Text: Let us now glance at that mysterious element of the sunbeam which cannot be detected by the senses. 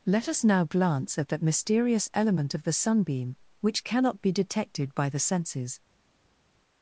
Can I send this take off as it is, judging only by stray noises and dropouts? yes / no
yes